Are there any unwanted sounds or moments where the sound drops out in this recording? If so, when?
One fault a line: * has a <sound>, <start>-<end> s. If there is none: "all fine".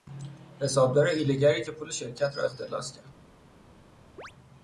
* has a chirp, 4.2-4.3 s